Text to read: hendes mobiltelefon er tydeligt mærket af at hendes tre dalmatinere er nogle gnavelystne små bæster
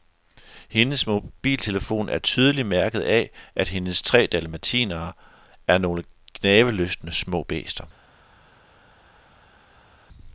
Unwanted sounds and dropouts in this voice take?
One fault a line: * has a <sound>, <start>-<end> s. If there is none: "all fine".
all fine